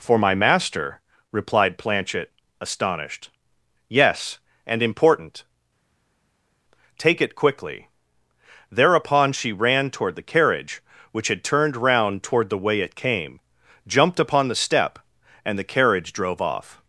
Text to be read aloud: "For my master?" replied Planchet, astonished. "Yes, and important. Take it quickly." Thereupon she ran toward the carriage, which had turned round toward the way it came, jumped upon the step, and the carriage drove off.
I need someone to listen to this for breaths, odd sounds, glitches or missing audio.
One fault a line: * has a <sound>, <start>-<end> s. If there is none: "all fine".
all fine